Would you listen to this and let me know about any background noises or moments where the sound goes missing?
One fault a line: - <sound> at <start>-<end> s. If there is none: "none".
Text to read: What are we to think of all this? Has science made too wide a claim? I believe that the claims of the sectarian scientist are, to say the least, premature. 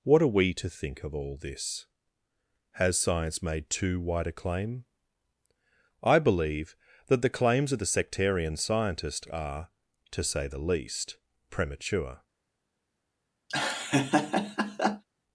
- laugh at 13.5-15.0 s